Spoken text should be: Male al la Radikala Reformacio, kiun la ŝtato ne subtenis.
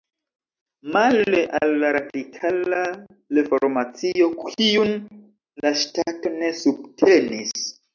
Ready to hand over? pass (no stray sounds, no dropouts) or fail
pass